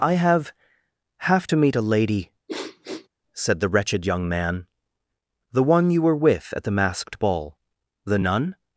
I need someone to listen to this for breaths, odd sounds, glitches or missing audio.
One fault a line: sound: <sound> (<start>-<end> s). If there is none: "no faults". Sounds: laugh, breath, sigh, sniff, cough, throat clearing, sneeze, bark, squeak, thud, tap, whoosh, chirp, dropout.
sound: sniff (2.5-3.1 s)